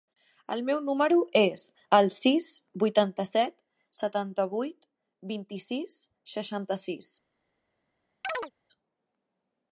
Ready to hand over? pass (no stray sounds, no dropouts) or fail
fail